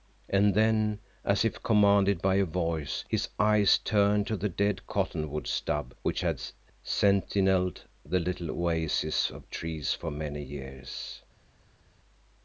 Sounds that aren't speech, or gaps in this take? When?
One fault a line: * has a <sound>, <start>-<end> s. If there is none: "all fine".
all fine